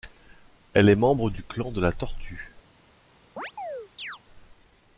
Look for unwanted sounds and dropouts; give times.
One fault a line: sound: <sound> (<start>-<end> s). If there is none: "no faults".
sound: chirp (3.4-4.2 s)